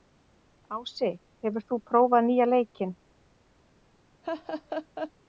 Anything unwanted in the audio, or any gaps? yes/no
yes